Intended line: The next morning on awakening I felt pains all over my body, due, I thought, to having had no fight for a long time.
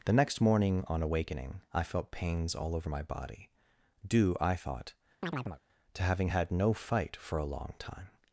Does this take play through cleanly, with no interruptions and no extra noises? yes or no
no